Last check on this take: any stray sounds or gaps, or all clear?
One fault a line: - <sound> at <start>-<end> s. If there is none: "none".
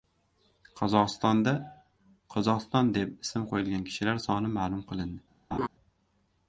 - laugh at 5.5-5.7 s